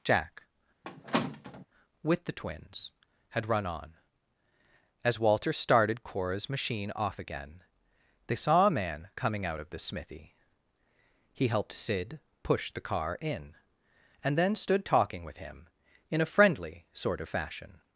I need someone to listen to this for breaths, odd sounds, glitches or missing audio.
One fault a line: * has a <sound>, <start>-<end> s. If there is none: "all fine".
* has a squeak, 0.8-1.7 s